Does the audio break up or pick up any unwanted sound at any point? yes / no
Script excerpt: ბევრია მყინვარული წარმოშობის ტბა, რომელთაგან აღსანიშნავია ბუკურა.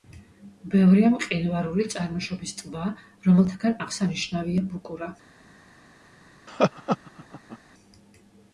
yes